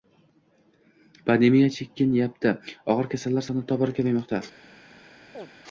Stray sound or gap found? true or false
true